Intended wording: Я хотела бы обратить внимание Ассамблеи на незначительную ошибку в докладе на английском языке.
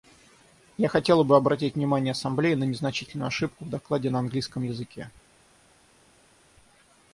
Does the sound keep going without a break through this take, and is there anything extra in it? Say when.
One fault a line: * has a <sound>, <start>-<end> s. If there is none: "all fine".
all fine